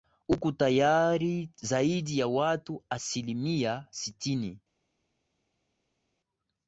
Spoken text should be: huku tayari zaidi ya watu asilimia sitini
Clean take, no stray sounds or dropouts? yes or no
yes